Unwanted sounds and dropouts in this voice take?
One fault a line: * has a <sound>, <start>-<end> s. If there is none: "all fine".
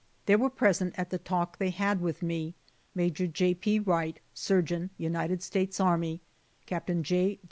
all fine